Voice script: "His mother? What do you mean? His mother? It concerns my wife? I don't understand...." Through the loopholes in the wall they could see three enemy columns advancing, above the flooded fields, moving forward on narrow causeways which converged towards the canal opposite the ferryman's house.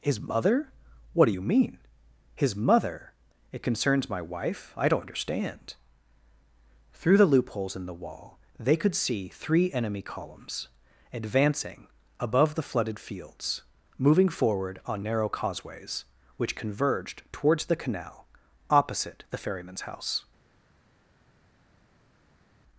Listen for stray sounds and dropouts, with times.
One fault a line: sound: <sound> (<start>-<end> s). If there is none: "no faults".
no faults